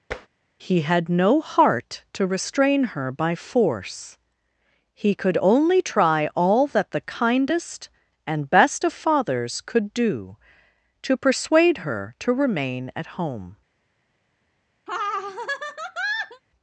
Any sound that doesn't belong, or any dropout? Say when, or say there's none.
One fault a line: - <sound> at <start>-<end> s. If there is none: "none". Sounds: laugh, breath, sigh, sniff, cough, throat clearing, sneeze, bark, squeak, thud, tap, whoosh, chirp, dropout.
- tap at 0.1-0.3 s
- laugh at 14.9-16.4 s